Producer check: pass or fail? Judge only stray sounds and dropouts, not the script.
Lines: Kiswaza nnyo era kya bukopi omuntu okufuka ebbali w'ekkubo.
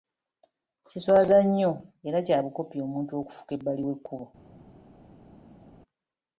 pass